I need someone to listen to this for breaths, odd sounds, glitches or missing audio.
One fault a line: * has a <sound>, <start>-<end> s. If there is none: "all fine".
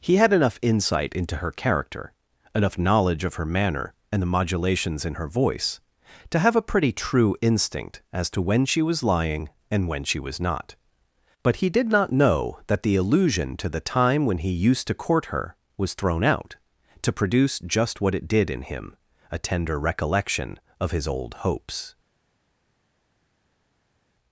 all fine